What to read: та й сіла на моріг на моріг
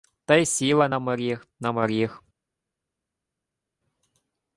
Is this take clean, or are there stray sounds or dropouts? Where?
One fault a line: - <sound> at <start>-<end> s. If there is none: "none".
none